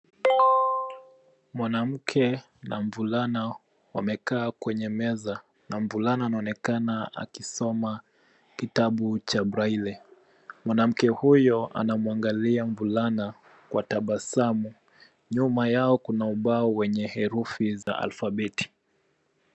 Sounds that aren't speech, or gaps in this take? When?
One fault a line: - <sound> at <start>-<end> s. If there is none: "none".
- dropout at 17.8-17.9 s